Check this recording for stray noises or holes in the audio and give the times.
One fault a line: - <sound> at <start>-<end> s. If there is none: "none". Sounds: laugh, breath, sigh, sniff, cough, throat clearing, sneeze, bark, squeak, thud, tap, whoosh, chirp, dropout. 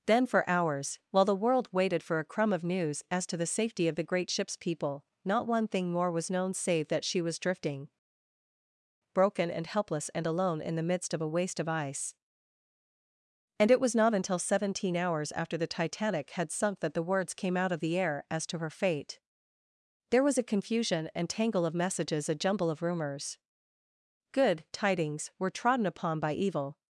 none